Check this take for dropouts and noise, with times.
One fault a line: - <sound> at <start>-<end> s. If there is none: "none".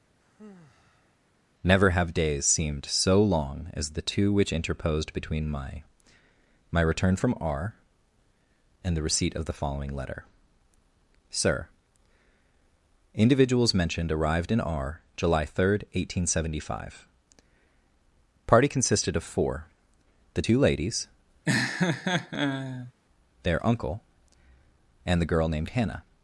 - sigh at 0.2-1.2 s
- laugh at 21.5-22.9 s